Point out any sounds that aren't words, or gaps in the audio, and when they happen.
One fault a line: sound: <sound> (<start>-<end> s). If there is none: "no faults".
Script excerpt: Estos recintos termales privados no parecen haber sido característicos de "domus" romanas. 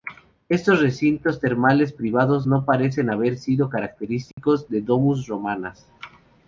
sound: dropout (4.3-4.4 s)